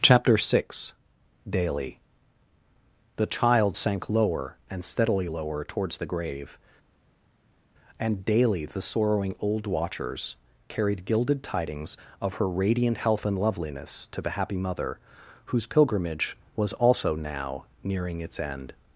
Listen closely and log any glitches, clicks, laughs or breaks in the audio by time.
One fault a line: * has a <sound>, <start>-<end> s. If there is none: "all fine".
all fine